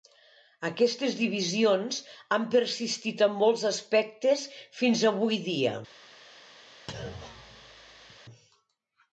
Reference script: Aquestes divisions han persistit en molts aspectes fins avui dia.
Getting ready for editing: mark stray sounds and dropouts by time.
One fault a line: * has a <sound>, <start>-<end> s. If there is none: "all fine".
* has a thud, 6.9-8.2 s